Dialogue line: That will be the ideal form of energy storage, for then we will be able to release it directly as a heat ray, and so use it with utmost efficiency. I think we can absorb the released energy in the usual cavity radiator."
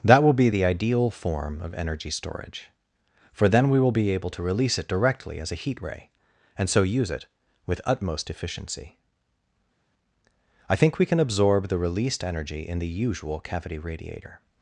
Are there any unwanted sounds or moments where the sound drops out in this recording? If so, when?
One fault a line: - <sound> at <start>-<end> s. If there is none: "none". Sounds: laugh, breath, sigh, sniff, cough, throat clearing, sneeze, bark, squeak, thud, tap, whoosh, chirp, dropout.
none